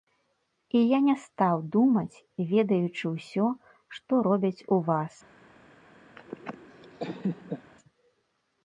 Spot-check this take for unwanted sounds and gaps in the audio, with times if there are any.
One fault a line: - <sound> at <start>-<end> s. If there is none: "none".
- laugh at 6.2-7.7 s